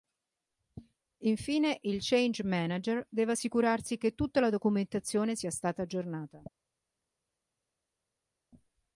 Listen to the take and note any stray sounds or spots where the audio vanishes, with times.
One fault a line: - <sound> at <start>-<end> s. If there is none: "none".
none